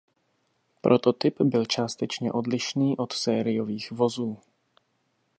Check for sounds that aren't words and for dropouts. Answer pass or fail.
pass